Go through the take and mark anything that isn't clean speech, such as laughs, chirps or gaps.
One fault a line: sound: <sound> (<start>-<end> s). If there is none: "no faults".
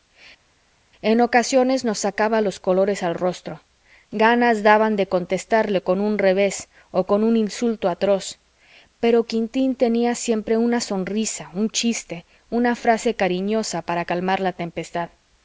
no faults